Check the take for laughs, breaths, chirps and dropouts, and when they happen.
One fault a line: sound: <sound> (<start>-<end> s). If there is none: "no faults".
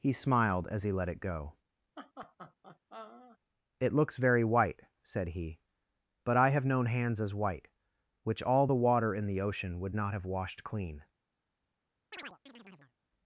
sound: laugh (2.0-3.4 s)
sound: chirp (12.1-12.9 s)